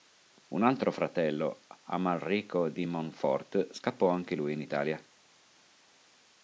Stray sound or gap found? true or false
false